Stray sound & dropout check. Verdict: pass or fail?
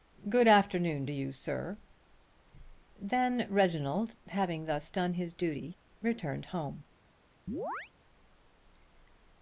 fail